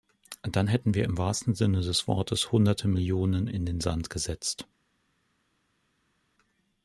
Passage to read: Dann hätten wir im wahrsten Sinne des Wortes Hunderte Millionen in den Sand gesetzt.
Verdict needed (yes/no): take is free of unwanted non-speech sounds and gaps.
yes